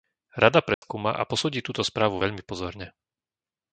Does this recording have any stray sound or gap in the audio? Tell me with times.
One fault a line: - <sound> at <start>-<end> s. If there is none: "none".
- dropout at 0.7-0.8 s